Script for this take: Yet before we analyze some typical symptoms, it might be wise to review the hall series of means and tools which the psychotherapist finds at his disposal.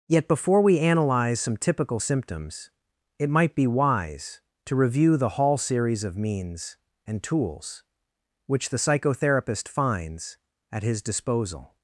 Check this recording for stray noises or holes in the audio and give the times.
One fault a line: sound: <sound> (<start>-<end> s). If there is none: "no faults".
no faults